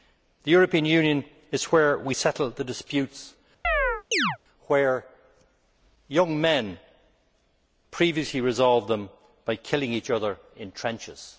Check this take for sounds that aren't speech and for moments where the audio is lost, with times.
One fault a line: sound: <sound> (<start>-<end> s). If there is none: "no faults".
sound: chirp (3.6-4.4 s)